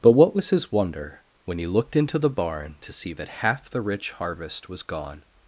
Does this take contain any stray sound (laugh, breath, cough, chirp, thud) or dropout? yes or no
no